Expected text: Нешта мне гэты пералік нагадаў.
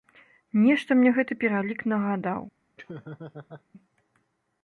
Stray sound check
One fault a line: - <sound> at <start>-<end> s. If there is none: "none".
- laugh at 2.8-3.6 s